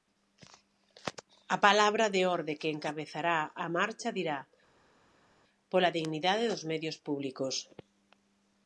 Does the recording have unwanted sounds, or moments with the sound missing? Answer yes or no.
no